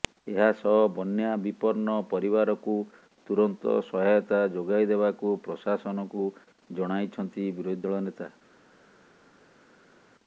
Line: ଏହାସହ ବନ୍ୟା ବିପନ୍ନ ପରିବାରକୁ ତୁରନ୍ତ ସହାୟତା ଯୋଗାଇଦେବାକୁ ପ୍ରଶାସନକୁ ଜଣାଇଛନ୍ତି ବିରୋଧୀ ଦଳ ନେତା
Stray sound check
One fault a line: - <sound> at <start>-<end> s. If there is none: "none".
none